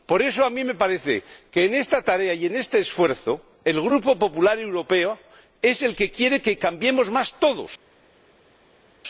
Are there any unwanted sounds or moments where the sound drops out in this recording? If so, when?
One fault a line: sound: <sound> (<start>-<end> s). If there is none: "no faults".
no faults